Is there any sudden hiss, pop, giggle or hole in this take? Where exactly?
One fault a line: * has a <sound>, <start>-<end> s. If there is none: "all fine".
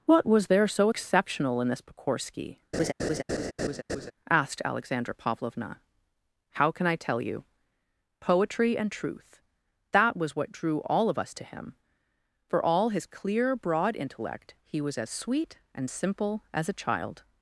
* has a laugh, 2.7-4.1 s